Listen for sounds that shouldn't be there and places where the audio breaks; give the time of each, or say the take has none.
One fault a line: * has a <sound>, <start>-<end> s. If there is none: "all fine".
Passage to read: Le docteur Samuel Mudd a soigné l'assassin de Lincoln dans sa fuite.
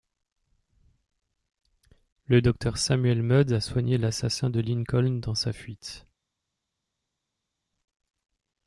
all fine